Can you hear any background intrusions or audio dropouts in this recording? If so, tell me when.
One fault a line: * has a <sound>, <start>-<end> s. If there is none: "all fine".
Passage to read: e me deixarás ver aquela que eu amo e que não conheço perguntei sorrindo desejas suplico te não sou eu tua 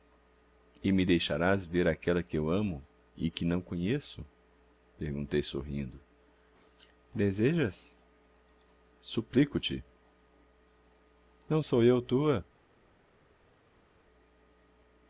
all fine